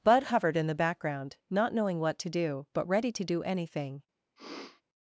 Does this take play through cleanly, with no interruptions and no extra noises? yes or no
no